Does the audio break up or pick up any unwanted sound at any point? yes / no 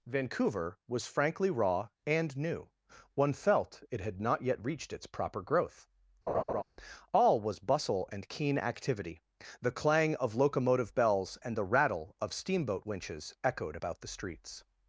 yes